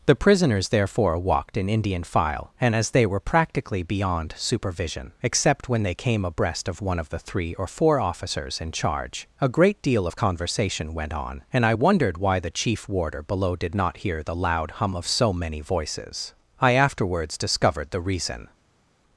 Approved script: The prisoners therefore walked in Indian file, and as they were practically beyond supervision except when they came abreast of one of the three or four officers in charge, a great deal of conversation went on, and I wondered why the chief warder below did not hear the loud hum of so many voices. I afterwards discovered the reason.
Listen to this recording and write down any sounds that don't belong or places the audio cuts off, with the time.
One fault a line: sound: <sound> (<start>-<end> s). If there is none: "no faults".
no faults